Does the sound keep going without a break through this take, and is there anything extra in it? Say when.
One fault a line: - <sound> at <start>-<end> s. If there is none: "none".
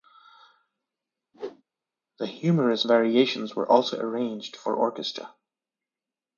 - whoosh at 1.3-1.6 s